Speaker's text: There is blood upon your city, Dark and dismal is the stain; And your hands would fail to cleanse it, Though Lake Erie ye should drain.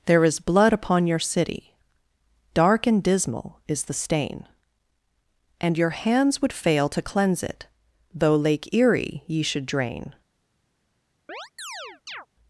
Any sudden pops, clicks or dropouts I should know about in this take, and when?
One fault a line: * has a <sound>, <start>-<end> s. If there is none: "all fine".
* has a chirp, 11.3-12.3 s